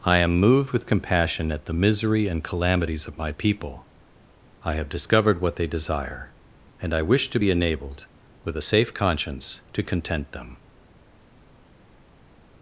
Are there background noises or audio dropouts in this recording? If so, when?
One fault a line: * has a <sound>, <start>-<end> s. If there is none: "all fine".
all fine